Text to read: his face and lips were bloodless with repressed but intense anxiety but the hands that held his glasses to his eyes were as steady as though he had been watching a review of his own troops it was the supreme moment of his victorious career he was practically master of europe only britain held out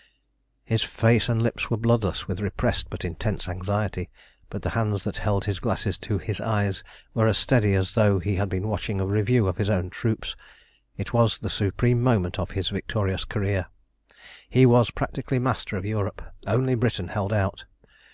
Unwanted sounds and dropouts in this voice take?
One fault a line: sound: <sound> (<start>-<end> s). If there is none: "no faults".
no faults